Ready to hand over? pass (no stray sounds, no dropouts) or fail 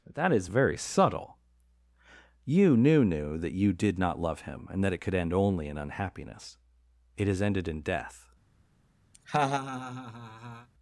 fail